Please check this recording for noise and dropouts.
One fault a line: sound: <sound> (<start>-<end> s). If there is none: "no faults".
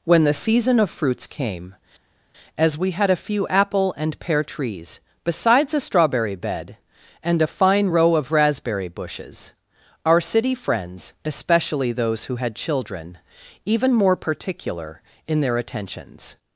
no faults